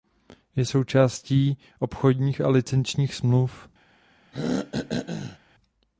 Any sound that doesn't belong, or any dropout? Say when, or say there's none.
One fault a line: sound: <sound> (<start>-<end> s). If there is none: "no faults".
sound: throat clearing (4.3-5.4 s)